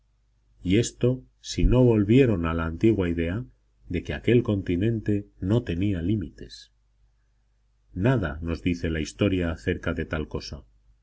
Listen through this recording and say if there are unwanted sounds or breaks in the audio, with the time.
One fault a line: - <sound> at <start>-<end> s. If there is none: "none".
none